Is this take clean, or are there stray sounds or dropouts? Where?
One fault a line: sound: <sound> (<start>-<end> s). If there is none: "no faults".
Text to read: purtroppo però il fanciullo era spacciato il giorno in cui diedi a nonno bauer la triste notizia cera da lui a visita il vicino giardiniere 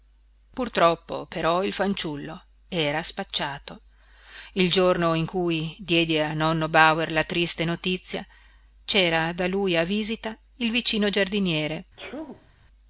sound: sneeze (12.0-12.5 s)